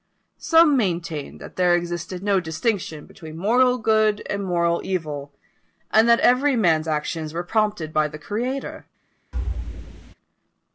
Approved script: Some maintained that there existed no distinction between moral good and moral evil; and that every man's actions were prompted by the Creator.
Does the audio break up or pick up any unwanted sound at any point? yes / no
yes